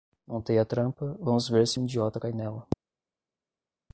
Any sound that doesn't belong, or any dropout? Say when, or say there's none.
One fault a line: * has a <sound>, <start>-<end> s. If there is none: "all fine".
all fine